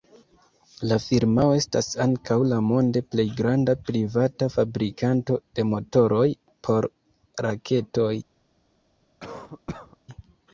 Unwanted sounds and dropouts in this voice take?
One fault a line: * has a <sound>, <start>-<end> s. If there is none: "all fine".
* has a cough, 9.2-10.0 s